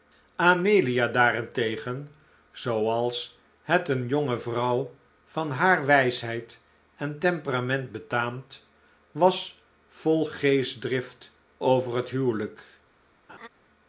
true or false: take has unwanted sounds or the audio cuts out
true